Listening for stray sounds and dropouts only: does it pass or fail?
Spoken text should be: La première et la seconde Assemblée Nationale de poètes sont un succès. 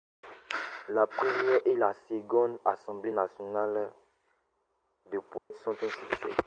fail